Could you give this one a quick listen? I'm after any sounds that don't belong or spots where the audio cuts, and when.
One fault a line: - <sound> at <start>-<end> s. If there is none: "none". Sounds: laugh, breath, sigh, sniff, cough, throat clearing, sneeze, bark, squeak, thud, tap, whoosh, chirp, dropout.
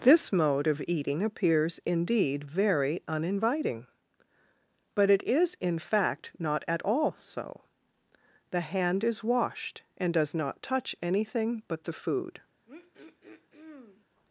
- throat clearing at 12.7-14.1 s